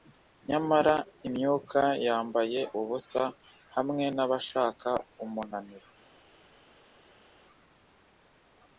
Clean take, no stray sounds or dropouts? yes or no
yes